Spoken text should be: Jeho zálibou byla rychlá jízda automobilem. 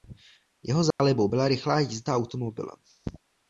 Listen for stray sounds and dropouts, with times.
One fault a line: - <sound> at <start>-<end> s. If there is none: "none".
- dropout at 0.9-1.0 s